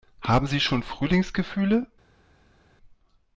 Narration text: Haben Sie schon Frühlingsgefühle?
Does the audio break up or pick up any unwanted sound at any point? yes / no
no